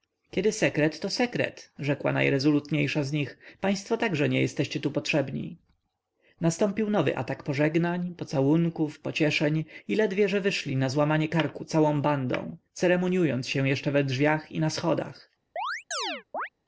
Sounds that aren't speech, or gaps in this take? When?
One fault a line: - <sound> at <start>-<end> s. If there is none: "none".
- chirp at 15.6-16.5 s